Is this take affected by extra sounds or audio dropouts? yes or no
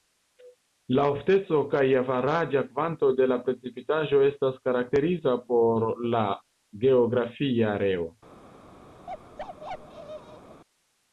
yes